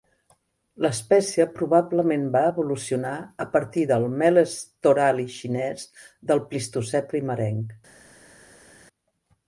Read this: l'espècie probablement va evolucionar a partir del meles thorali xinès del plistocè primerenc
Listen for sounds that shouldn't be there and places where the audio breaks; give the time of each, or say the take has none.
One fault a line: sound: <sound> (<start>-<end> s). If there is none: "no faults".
no faults